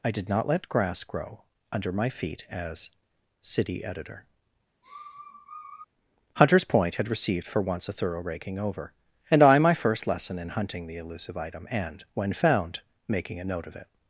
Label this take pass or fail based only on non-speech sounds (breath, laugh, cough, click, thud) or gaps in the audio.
fail